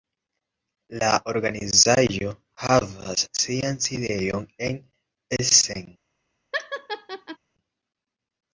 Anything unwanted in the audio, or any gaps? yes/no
yes